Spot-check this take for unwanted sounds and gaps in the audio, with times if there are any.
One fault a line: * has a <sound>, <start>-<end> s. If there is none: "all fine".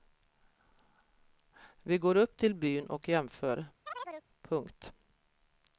* has a chirp, 3.9-4.3 s